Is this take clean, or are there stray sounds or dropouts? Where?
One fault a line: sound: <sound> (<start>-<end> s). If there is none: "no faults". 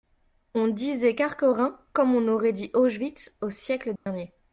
sound: dropout (4.0-4.1 s)